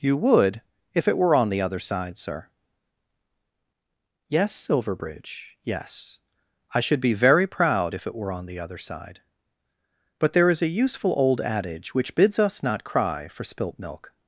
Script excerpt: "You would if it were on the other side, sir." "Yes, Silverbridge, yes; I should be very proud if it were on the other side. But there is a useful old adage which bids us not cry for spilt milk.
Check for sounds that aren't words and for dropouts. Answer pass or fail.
pass